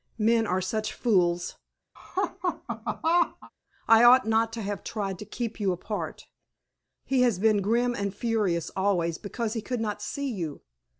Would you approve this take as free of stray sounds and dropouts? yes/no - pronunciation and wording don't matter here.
no